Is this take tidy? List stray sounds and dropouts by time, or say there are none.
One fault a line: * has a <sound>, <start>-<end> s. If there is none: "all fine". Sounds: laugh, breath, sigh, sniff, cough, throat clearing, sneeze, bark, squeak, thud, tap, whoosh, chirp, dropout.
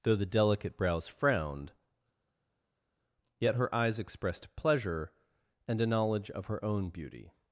all fine